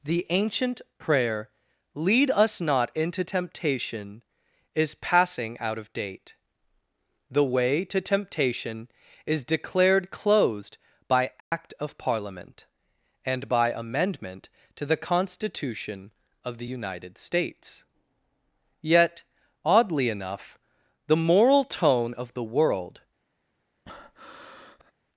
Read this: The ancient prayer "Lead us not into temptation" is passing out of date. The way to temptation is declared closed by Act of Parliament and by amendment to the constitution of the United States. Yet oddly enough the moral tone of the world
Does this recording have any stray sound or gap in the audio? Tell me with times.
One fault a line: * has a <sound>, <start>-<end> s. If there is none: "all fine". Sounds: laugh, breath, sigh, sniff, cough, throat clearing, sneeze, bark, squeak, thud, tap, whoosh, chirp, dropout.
* has a dropout, 11.4-11.5 s
* has a breath, 23.9-24.9 s